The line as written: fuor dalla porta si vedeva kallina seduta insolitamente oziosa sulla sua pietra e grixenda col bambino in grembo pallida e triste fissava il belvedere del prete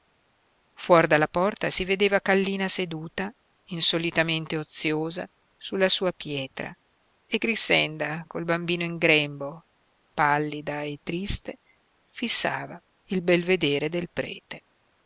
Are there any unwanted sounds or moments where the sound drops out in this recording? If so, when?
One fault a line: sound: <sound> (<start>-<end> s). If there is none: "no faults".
no faults